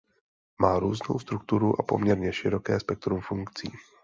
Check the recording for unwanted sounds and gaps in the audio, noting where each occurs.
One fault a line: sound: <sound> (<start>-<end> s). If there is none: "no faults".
no faults